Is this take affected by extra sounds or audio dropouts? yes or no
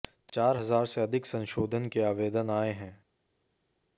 no